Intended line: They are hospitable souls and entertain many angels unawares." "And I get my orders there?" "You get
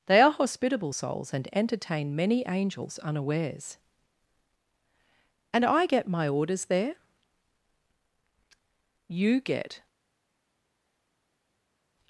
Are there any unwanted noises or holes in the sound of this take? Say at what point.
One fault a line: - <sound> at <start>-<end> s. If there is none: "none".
none